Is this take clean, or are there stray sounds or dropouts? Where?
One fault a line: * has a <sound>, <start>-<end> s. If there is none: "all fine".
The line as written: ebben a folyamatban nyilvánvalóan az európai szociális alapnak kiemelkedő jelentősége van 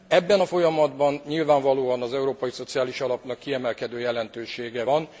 all fine